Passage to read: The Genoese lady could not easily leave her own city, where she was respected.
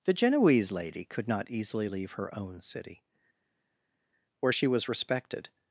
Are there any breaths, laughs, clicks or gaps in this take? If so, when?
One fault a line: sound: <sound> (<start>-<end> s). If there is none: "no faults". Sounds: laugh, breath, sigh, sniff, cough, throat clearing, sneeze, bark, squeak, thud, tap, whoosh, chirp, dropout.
no faults